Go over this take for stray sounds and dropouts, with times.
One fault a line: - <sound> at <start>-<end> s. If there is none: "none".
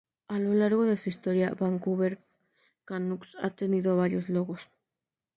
none